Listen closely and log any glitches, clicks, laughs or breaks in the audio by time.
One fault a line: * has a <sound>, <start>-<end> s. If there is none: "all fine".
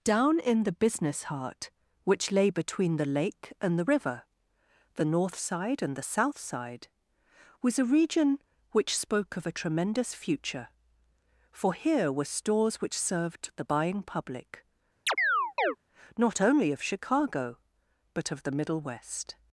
* has a chirp, 15.1-15.8 s